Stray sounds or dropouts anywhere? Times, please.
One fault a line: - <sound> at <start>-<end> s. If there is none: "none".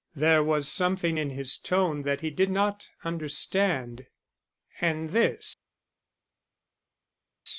none